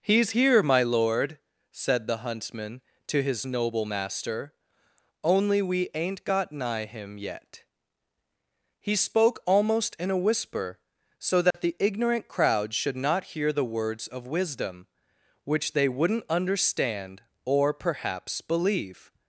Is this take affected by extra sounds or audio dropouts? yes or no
yes